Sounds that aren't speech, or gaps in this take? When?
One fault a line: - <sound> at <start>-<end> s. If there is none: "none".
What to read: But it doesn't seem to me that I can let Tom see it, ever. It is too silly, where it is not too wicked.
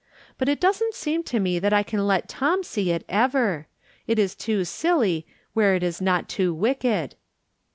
none